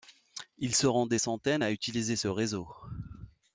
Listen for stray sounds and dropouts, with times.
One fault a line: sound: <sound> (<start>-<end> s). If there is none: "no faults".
no faults